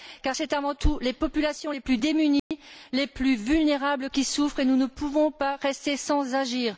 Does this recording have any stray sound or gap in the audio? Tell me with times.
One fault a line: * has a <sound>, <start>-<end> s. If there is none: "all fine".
* has a dropout, 2.4-2.5 s